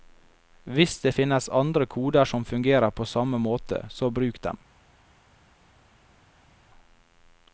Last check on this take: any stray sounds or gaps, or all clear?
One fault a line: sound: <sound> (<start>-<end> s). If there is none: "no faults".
no faults